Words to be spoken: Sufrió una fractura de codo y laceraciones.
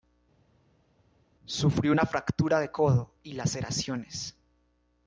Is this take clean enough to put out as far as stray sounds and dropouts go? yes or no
yes